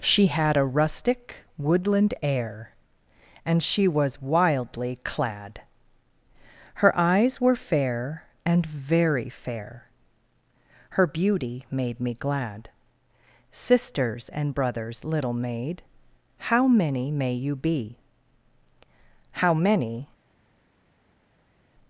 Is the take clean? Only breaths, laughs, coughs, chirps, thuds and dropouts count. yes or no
yes